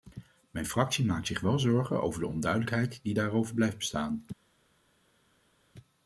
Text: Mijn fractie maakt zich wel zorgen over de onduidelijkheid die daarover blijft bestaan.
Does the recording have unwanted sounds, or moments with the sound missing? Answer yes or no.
no